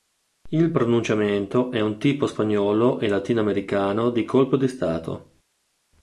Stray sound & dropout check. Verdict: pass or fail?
pass